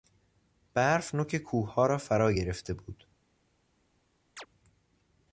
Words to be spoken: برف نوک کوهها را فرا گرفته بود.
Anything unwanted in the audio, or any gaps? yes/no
yes